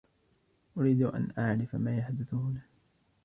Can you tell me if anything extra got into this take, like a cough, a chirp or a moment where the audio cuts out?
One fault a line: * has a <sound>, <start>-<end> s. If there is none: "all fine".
all fine